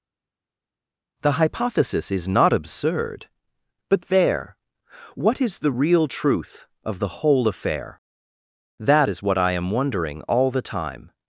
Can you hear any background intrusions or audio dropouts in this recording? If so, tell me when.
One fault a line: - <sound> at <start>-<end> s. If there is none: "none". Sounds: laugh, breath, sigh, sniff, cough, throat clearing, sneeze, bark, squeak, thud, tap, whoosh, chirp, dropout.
none